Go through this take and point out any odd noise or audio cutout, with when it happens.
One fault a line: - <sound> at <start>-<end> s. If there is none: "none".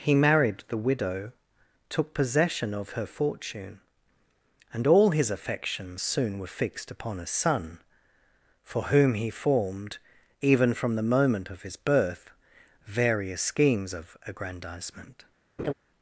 - laugh at 15.6-15.7 s